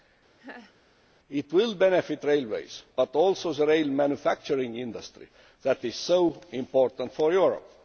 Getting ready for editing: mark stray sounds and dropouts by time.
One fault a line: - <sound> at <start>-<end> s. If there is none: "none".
- laugh at 0.4-0.7 s